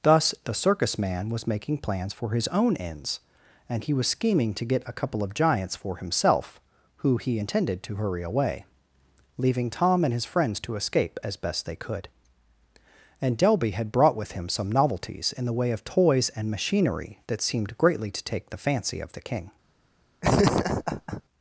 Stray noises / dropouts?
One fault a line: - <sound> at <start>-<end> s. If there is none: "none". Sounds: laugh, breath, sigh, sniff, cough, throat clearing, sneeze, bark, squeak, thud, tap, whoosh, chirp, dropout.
- laugh at 20.2-21.2 s